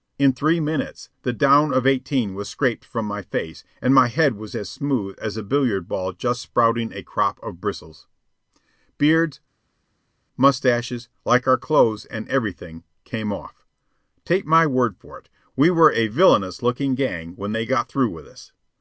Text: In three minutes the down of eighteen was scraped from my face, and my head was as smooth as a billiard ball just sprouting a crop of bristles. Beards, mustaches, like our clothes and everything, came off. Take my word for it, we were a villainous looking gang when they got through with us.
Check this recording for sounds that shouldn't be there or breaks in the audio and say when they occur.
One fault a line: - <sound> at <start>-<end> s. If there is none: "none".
none